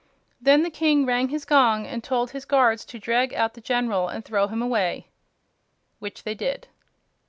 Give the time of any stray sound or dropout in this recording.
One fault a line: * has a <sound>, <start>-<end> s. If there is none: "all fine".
all fine